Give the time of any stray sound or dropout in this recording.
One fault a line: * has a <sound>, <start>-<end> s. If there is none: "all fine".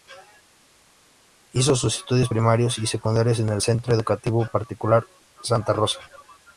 all fine